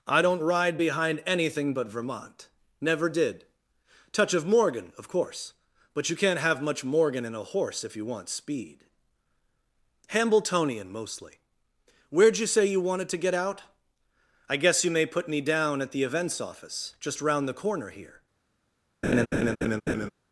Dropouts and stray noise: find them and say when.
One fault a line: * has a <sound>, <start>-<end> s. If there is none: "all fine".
* has a laugh, 19.0-20.1 s